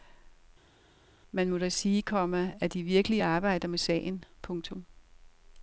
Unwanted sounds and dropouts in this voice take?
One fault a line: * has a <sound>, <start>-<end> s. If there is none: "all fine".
all fine